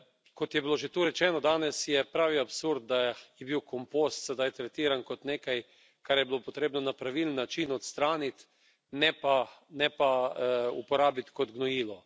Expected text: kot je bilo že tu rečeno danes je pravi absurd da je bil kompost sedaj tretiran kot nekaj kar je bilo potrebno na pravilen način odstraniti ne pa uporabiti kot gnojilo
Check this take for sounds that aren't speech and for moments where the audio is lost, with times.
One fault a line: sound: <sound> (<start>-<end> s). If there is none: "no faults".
no faults